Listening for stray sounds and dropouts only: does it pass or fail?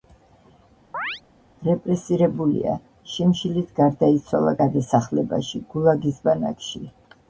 fail